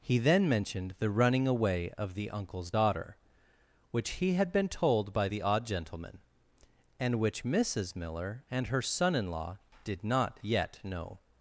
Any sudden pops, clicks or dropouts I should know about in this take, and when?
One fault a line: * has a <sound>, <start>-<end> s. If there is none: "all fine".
all fine